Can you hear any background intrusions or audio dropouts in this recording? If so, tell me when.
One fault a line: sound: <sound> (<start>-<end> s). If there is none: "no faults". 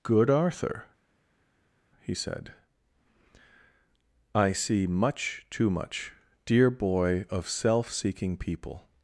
no faults